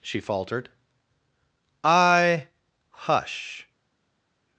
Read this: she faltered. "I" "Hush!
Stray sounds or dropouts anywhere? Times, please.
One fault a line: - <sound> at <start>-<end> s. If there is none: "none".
none